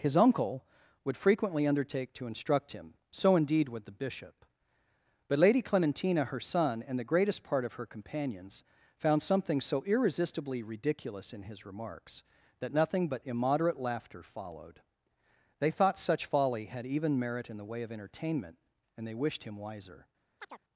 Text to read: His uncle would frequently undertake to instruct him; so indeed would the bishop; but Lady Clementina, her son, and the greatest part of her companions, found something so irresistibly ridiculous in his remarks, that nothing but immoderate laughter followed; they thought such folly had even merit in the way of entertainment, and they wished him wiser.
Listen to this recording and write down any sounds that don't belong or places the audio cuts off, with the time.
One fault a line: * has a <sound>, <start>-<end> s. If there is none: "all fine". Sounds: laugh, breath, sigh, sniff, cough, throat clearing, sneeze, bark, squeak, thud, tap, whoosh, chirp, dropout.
* has a chirp, 20.4-20.6 s